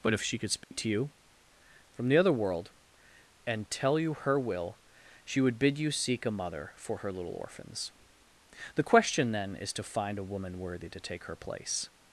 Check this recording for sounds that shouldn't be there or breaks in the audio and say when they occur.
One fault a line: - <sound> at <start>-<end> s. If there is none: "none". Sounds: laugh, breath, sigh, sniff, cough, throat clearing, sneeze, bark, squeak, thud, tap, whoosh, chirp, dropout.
- dropout at 0.6-0.7 s